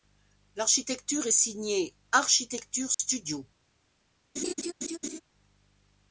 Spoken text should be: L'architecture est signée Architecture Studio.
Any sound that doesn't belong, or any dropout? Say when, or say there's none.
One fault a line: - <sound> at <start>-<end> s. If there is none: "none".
- dropout at 2.9-3.0 s
- laugh at 4.4-5.2 s